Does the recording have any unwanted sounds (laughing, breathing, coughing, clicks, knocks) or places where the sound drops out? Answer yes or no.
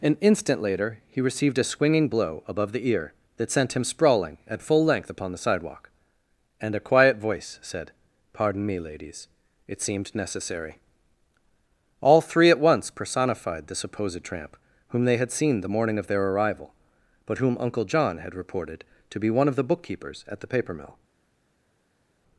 no